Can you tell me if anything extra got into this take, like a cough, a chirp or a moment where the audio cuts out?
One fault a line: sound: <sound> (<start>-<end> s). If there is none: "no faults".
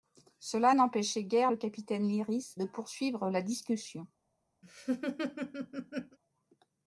sound: laugh (4.6-6.2 s)